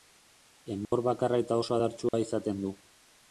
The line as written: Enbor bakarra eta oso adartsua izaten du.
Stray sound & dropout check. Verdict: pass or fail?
fail